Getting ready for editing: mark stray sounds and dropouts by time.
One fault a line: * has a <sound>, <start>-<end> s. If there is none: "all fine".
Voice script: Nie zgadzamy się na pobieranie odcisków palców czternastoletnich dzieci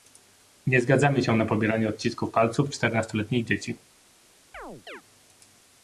* has a chirp, 4.5-5.0 s